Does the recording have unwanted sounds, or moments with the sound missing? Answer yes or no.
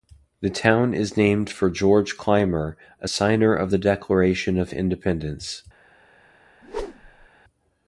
yes